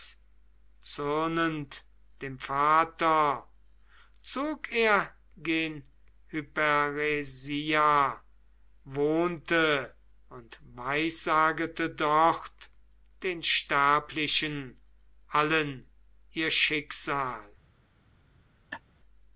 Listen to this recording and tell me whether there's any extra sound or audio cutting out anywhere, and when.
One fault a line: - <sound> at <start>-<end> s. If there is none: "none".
- laugh at 18.7-18.8 s